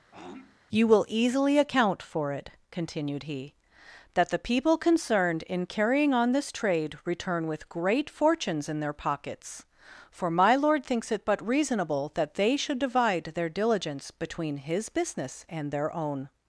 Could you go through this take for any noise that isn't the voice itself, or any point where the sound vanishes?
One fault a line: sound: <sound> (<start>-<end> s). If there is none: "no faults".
sound: throat clearing (0.1-0.6 s)